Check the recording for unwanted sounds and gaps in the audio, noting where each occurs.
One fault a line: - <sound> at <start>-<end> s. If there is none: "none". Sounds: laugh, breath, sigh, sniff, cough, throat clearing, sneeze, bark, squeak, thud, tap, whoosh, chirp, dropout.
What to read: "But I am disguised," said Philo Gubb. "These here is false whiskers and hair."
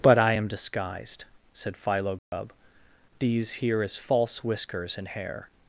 - dropout at 2.2-2.3 s